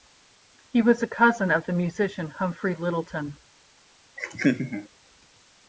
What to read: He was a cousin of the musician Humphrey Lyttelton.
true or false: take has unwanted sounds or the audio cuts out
true